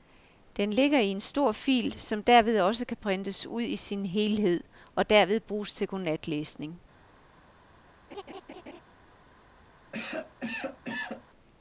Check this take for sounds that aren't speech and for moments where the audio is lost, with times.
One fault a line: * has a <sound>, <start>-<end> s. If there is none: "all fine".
* has a laugh, 8.1-8.8 s
* has a cough, 9.9-11.2 s